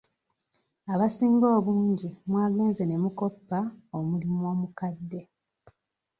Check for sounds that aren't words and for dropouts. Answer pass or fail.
pass